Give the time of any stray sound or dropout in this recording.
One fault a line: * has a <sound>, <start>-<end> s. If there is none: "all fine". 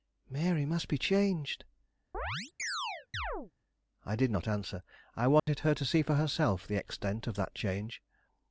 * has a chirp, 2.1-3.5 s
* has a dropout, 5.4-5.5 s